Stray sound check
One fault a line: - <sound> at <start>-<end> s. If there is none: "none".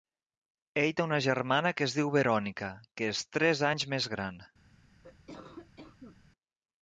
- cough at 5.0-6.2 s